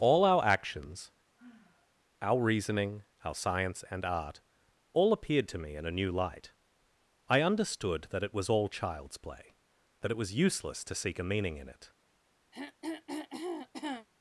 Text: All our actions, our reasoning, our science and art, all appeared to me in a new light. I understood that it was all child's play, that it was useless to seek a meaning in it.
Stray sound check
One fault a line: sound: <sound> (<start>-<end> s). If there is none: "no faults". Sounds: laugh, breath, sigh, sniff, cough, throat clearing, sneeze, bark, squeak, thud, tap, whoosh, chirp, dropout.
sound: sigh (1.4-1.9 s)
sound: throat clearing (12.5-14.1 s)